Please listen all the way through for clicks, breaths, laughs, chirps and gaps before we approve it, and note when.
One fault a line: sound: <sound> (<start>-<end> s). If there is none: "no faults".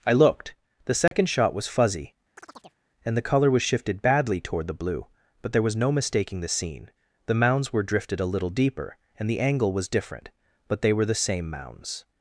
sound: dropout (1.1-1.1 s)
sound: chirp (2.4-2.8 s)